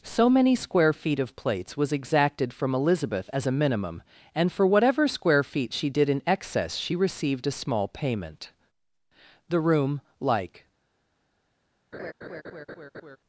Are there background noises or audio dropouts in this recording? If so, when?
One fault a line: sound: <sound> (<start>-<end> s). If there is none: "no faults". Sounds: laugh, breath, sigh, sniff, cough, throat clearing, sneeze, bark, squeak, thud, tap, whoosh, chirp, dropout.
sound: laugh (11.9-13.2 s)